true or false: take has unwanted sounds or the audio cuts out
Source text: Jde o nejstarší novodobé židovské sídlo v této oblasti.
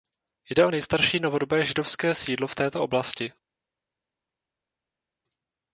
false